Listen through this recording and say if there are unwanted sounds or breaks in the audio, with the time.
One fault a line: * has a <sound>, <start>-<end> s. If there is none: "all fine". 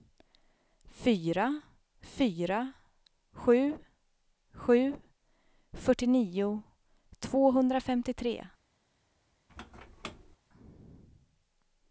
* has a squeak, 9.5-10.4 s